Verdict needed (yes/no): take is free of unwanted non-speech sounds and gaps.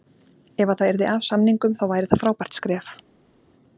yes